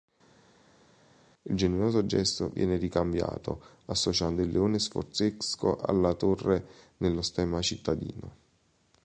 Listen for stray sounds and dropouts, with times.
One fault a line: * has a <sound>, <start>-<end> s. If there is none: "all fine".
all fine